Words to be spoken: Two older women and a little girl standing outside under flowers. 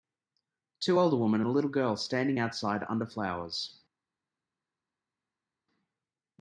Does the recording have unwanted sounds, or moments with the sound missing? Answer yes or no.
no